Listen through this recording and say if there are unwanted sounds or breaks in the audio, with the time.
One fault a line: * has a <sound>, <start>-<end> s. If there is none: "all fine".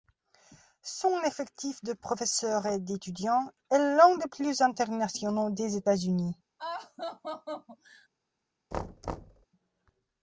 * has a laugh, 6.6-8.1 s
* has a thud, 8.7-9.5 s